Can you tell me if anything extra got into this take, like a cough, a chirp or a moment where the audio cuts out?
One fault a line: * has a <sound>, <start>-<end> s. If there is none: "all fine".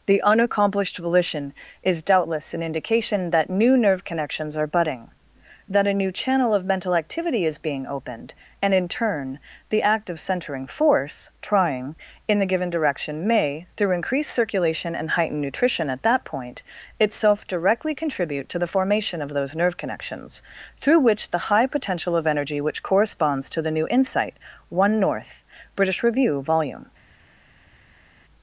all fine